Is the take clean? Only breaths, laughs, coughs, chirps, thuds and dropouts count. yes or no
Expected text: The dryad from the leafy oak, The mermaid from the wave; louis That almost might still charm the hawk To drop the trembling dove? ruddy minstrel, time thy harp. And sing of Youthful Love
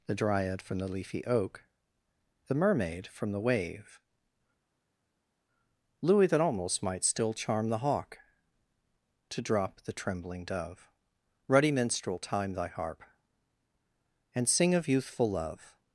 yes